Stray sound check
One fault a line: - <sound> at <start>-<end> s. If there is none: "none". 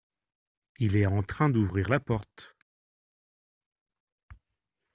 none